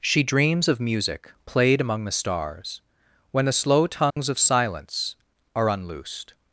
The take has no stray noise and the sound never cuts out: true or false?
false